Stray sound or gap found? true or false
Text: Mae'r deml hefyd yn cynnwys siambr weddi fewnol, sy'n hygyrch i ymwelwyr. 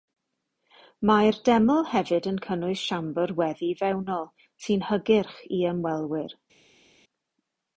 false